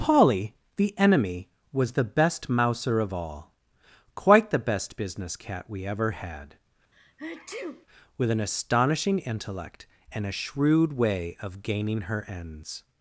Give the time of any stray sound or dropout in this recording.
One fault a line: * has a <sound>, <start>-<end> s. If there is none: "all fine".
* has a sneeze, 6.9-7.9 s